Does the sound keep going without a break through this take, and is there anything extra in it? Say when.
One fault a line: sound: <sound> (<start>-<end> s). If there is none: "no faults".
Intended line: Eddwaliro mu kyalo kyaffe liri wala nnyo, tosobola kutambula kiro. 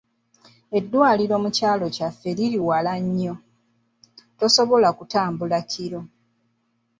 no faults